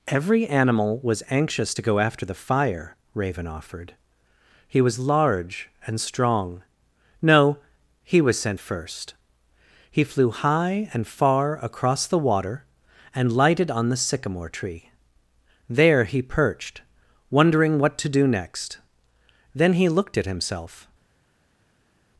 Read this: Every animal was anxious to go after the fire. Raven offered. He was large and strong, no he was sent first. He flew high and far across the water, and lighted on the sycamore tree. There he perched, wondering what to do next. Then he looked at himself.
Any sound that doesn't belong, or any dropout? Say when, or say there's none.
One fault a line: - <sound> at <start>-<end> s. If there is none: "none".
none